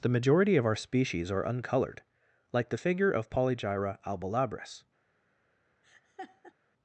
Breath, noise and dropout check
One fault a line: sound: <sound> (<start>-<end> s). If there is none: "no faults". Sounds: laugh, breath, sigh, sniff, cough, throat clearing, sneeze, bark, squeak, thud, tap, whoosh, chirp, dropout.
sound: laugh (5.8-6.5 s)